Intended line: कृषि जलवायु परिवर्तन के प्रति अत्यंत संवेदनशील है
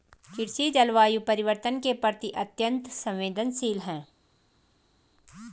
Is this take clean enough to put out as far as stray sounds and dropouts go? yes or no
yes